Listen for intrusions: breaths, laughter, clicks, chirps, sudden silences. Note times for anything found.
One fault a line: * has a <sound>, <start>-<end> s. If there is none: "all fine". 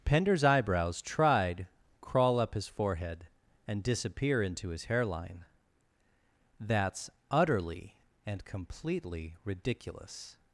all fine